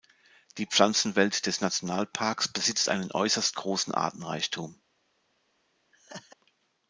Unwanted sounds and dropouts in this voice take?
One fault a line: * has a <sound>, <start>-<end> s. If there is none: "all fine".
* has a laugh, 5.9-6.4 s